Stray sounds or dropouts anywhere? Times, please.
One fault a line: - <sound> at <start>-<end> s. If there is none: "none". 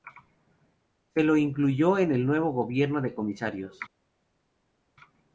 none